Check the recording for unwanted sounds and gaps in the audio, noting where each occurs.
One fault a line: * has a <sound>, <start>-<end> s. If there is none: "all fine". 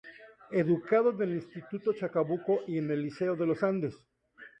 all fine